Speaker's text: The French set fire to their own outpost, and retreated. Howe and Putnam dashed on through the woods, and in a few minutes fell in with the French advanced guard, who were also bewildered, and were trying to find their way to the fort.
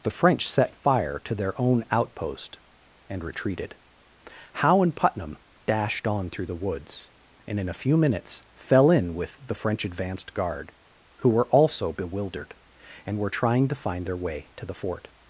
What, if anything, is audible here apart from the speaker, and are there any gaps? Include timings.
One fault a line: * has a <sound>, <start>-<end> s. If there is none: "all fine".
all fine